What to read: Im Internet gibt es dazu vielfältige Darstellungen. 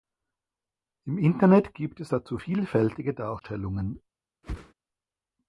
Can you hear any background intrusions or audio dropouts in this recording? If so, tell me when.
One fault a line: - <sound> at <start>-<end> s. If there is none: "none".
- whoosh at 4.4-4.7 s